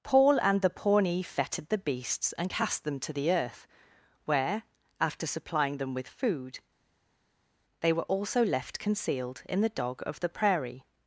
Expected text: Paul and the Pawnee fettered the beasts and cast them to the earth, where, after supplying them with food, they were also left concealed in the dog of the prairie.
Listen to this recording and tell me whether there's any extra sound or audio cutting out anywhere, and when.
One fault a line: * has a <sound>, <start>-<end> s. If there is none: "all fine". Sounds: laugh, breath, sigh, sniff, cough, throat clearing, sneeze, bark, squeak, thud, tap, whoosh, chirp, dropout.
all fine